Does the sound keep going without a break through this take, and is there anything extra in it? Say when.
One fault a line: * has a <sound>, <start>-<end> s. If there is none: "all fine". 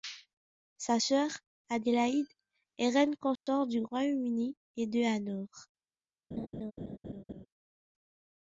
* has a dropout, 3.4-3.5 s
* has a laugh, 6.3-7.5 s